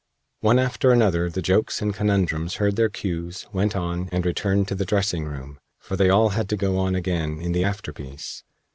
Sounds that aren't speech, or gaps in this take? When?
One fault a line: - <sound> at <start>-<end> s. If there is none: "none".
none